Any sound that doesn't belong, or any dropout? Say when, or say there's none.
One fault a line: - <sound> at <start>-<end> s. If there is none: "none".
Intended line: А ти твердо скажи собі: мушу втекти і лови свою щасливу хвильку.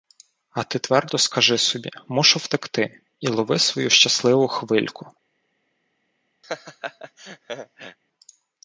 - laugh at 6.4-8.0 s